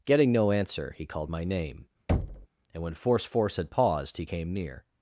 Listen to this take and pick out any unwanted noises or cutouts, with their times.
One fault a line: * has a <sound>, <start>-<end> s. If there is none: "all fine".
* has a thud, 2.1-2.5 s